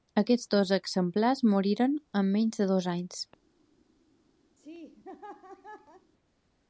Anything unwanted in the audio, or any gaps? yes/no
yes